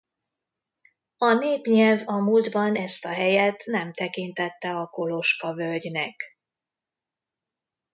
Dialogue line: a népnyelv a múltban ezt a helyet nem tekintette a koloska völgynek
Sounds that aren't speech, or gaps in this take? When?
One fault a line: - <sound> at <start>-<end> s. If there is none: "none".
none